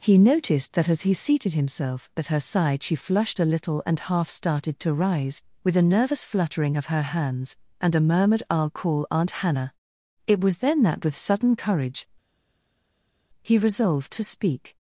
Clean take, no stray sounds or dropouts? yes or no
yes